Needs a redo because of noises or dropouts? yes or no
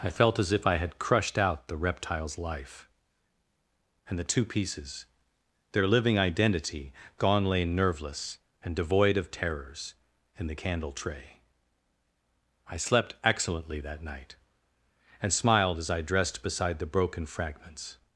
no